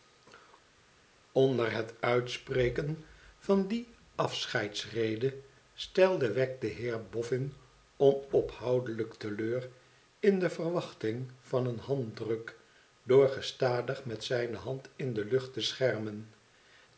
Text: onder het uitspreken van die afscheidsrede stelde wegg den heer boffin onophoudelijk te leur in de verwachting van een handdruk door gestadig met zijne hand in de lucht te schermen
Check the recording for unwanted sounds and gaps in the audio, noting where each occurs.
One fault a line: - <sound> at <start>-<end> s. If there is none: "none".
none